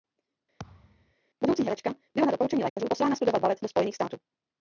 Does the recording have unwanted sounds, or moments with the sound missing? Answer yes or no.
yes